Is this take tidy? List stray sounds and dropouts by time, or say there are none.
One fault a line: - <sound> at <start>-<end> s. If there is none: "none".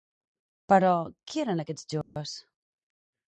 - dropout at 2.0-2.2 s